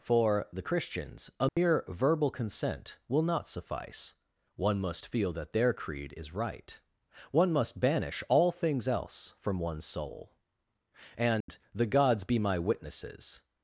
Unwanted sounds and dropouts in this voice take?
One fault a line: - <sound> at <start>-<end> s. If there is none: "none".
- dropout at 1.5-1.6 s
- dropout at 11.4-11.5 s